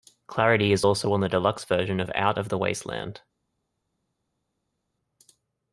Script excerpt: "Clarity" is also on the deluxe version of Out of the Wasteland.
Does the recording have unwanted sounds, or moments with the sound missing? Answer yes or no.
no